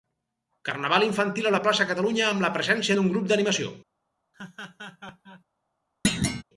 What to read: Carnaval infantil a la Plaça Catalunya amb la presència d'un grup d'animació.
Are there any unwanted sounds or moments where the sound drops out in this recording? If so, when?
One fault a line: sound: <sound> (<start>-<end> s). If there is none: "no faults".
sound: laugh (4.3-5.4 s)
sound: thud (6.0-6.4 s)